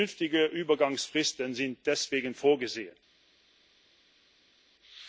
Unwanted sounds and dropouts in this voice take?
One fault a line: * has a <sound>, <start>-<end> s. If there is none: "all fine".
all fine